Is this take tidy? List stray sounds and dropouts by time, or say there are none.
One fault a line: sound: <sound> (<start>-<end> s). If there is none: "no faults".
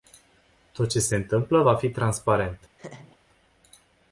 sound: laugh (2.8-3.2 s)